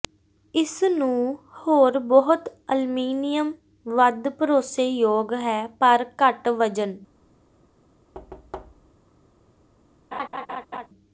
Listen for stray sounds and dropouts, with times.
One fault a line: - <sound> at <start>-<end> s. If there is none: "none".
- thud at 8.1-9.0 s
- laugh at 10.1-10.9 s